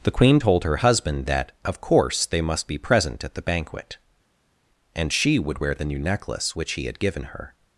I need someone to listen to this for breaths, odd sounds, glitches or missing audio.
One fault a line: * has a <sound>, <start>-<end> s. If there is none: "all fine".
all fine